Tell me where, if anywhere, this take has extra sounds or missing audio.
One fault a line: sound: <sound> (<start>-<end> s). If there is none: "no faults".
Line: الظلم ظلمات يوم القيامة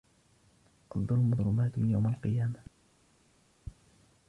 no faults